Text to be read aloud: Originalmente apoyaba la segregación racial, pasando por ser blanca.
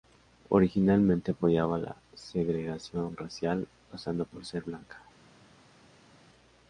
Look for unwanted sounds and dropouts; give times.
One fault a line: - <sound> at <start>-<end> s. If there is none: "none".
none